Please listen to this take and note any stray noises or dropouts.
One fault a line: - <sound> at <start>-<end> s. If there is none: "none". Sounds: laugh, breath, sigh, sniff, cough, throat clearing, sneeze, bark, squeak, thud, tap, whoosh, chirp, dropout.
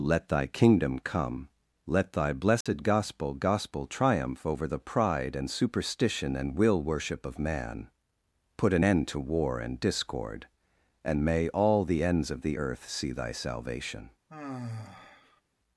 - dropout at 2.6-2.7 s
- sigh at 14.3-15.4 s